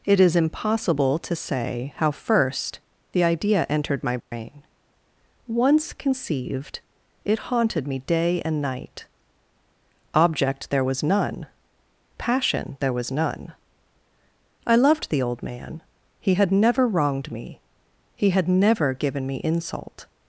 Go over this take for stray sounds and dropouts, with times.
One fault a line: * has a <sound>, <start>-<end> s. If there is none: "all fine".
* has a dropout, 4.2-4.3 s